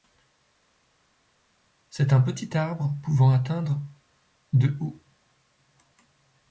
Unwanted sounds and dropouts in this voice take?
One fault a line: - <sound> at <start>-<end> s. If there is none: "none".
none